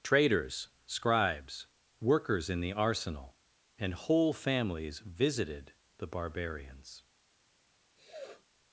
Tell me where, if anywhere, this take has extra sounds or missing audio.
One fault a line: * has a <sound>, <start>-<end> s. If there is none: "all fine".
* has a sniff, 7.9-8.5 s